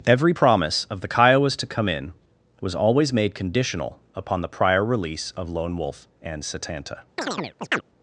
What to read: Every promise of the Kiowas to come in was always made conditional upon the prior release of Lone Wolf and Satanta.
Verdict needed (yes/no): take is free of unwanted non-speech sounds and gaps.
no